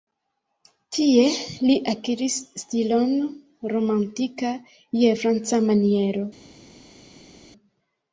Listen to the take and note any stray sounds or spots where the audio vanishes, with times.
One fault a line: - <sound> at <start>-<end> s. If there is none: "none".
none